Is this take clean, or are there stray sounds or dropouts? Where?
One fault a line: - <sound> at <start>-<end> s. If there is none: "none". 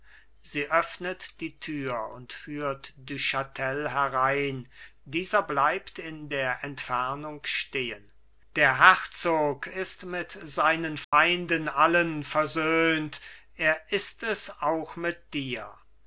- dropout at 11.0-11.1 s